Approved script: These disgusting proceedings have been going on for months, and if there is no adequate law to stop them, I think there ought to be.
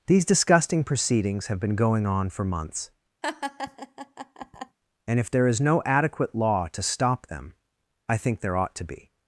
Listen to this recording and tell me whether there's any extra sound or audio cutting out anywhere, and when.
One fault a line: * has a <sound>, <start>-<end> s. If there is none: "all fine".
* has a laugh, 3.2-4.8 s